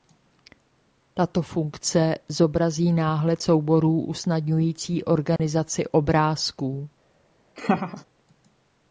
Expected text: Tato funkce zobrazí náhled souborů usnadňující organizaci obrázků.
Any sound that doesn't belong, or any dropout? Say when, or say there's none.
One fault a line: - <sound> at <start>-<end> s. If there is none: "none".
- dropout at 5.4-5.4 s
- laugh at 7.6-8.0 s